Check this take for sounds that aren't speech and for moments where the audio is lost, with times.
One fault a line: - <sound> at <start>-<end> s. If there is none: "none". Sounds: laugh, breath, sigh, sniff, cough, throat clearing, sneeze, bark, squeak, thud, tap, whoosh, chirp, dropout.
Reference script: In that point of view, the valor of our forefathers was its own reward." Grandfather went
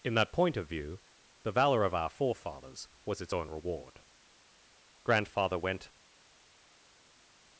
none